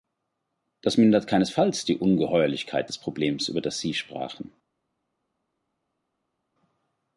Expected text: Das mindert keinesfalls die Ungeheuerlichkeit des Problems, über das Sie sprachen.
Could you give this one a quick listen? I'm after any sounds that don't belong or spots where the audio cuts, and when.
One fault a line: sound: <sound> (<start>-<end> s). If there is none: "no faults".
no faults